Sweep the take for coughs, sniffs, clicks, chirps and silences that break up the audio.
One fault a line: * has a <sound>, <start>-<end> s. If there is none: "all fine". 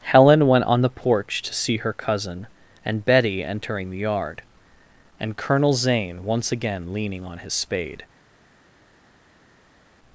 all fine